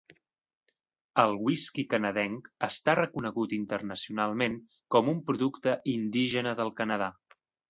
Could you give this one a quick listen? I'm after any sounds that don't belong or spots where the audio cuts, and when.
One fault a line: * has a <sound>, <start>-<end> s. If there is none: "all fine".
all fine